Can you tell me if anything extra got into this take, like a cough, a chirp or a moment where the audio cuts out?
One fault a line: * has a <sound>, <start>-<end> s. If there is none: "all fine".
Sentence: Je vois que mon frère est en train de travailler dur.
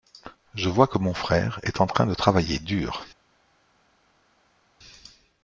all fine